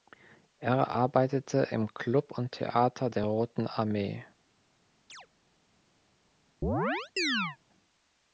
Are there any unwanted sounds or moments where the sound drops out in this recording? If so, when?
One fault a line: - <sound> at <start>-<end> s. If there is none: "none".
- chirp at 5.1-5.3 s
- chirp at 6.6-7.6 s